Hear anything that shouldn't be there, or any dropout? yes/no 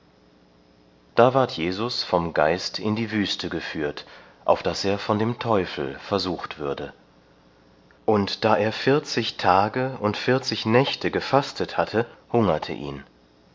no